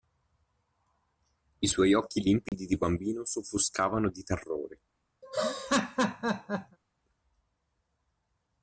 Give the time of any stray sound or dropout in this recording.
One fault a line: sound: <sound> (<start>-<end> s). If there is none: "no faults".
sound: dropout (2.5-2.5 s)
sound: laugh (5.2-6.8 s)